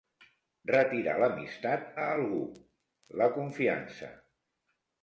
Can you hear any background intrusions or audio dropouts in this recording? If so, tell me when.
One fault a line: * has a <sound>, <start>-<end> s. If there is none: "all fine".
all fine